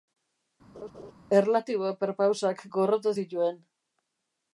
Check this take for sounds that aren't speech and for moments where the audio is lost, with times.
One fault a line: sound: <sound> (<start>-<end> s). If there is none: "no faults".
sound: laugh (0.7-1.1 s)